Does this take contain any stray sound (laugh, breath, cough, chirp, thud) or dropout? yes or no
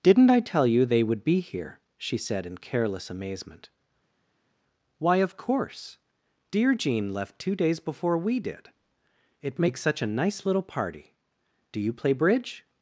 no